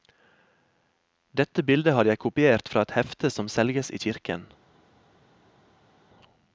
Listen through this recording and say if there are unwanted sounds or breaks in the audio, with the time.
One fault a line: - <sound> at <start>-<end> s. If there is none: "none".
none